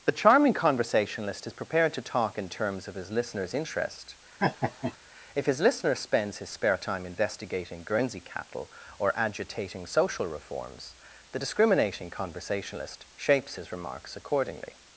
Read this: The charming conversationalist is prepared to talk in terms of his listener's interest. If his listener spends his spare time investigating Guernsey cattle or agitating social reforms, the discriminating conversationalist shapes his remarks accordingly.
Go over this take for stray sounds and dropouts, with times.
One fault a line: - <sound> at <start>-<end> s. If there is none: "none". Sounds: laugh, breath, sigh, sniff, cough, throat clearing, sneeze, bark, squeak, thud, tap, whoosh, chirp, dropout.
- laugh at 4.4-5.0 s